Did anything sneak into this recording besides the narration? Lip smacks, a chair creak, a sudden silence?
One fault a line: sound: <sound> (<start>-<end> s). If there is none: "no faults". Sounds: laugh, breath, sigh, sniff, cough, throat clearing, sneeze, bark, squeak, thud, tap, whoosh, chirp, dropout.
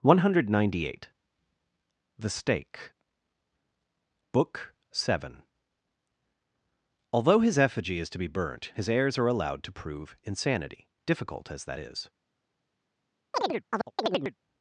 sound: chirp (13.3-14.4 s)